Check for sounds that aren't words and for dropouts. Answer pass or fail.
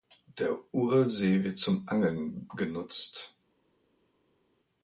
pass